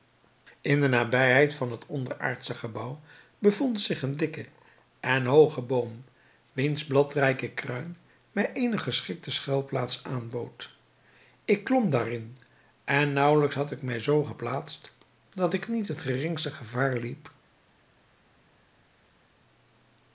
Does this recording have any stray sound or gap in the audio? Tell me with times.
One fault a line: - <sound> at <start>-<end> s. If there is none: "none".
none